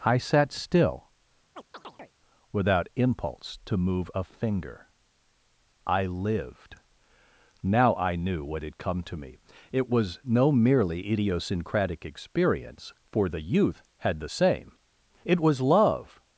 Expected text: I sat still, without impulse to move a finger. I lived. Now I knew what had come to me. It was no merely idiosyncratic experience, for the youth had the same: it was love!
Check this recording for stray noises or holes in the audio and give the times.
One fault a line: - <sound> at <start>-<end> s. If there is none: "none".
- chirp at 1.6-2.1 s